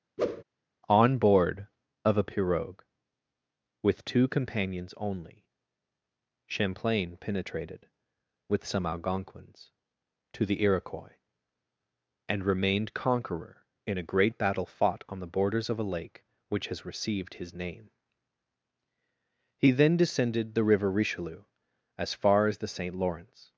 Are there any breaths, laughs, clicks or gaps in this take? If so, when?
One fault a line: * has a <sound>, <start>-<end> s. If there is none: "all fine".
* has a whoosh, 0.2-0.4 s